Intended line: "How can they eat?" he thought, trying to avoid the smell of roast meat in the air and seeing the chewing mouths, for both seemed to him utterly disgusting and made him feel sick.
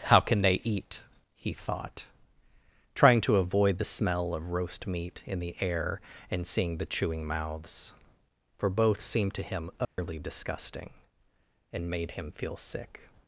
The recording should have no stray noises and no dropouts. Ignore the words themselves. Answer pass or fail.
fail